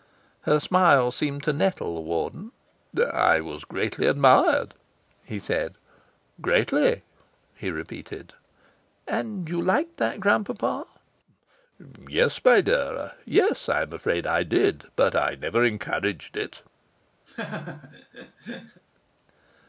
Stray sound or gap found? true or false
true